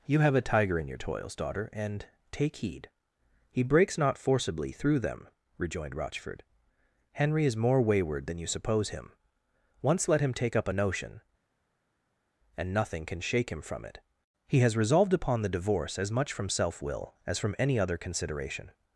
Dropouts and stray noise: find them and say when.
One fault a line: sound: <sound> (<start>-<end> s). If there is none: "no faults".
no faults